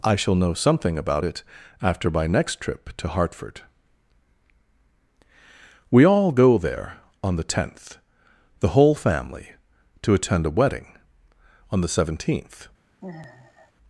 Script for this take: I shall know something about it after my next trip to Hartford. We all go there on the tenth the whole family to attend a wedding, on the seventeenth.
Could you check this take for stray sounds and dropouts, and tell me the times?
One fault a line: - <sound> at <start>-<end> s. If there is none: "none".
- sigh at 13.0-13.7 s